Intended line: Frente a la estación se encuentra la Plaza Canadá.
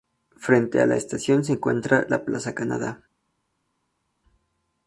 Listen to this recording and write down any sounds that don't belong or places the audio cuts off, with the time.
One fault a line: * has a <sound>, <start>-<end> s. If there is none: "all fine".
all fine